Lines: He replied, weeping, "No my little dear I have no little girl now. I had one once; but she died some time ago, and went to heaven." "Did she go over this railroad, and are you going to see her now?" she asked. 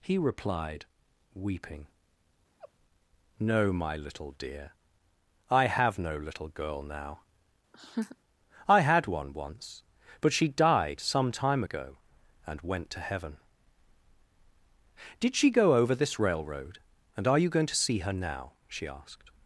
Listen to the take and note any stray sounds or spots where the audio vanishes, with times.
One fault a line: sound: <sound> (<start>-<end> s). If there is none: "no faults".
sound: laugh (2.6-2.7 s)
sound: laugh (7.7-8.2 s)